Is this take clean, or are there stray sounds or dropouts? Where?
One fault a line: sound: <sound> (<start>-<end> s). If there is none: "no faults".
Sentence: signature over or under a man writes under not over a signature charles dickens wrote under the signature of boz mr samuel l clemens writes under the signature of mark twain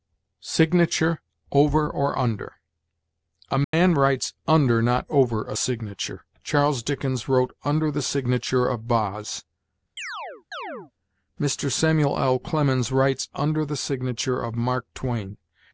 sound: dropout (3.6-3.7 s)
sound: chirp (10.0-10.9 s)